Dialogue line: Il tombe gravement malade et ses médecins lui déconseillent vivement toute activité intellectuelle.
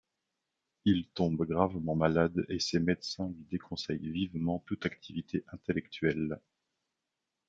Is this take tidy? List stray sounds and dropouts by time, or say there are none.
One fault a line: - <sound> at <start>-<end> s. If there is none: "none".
none